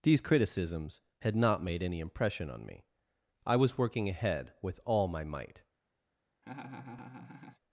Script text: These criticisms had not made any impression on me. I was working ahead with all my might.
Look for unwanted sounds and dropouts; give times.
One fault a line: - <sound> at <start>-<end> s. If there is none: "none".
- laugh at 6.4-7.6 s